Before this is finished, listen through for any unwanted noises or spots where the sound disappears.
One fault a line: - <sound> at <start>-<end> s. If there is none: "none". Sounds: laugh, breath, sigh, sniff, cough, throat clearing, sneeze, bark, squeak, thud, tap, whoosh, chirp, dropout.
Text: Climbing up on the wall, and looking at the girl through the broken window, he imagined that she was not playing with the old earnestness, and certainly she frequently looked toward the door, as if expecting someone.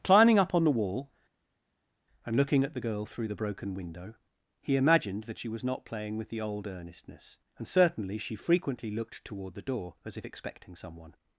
none